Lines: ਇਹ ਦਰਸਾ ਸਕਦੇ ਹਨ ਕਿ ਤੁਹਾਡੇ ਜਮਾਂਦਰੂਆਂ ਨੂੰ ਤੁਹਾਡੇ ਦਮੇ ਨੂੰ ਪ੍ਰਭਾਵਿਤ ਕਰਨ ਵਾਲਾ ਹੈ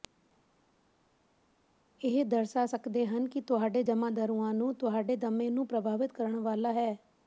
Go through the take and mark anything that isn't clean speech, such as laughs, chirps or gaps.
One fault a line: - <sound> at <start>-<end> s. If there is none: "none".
none